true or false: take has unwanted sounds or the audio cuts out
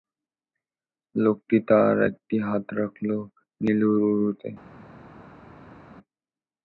false